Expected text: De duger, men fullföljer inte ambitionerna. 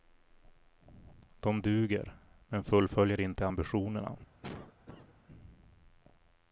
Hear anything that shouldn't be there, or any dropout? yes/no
yes